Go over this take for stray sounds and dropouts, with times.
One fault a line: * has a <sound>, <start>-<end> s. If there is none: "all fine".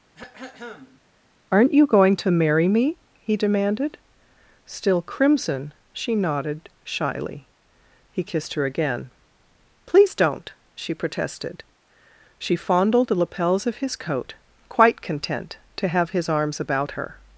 * has a throat clearing, 0.1-1.0 s